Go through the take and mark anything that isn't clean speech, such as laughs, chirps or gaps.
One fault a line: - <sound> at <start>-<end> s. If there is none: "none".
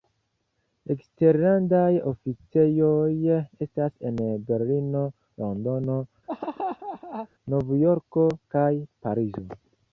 - laugh at 6.3-7.3 s